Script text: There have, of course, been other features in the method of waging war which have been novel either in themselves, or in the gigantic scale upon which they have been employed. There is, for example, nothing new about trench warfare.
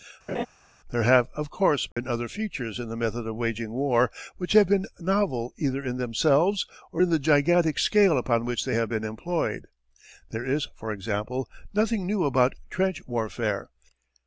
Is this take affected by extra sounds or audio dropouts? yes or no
yes